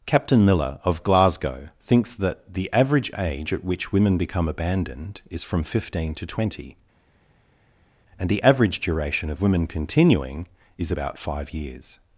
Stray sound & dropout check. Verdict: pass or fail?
pass